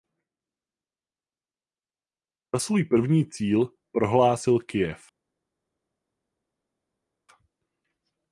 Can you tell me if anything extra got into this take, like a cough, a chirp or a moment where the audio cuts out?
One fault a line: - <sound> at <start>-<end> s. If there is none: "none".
none